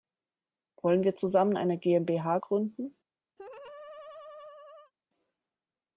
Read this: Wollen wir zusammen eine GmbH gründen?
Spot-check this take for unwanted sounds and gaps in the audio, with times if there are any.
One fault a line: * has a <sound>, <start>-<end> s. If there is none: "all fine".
* has a laugh, 3.4-4.9 s